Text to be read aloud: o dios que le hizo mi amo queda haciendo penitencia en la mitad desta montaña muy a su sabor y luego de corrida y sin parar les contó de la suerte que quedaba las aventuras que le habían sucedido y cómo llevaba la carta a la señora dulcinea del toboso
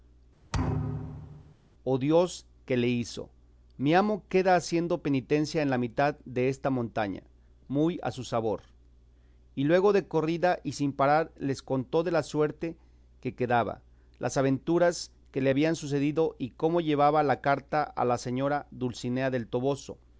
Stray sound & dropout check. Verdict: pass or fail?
fail